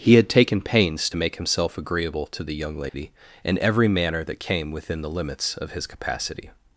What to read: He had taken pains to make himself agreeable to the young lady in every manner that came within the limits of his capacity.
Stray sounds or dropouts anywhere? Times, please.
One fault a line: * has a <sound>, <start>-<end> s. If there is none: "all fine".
* has a dropout, 2.9-2.9 s